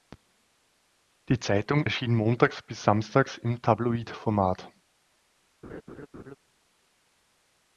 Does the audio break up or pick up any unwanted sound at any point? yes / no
yes